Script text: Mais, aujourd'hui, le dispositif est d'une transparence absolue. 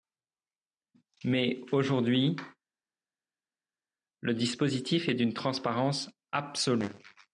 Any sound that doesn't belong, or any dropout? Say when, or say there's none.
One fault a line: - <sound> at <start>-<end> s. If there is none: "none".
none